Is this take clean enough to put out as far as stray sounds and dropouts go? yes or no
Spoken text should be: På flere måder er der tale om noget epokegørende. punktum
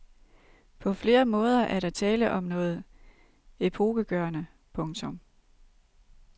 yes